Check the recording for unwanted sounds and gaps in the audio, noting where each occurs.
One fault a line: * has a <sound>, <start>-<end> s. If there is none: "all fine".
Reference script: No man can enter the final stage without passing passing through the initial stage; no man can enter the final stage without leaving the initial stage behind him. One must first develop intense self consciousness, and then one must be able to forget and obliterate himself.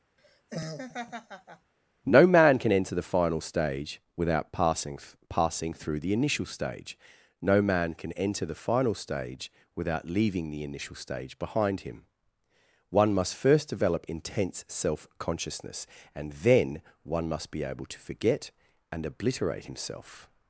* has a laugh, 0.2-1.7 s